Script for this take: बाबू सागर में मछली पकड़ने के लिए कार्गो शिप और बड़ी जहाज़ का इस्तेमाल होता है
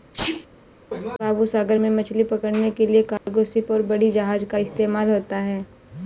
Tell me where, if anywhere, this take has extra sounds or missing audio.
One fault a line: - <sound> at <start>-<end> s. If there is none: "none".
- sneeze at 0.1-0.5 s
- dropout at 3.2-3.3 s